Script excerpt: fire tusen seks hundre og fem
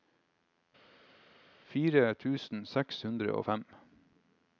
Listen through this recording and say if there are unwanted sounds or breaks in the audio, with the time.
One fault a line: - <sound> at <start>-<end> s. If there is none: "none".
none